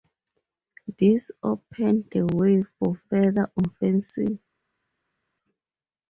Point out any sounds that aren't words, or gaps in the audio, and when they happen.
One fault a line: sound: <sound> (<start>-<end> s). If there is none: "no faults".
no faults